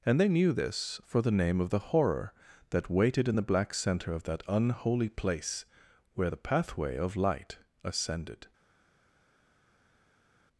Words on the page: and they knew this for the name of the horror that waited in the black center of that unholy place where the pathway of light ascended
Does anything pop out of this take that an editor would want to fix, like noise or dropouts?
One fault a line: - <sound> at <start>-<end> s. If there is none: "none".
none